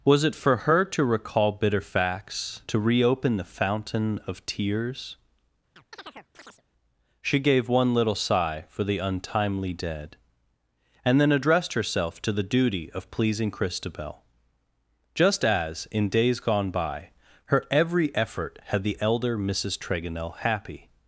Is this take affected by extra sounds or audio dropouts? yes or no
yes